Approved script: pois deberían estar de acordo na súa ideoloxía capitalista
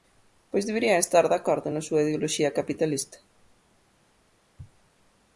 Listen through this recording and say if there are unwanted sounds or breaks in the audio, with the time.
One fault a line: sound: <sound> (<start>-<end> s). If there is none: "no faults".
no faults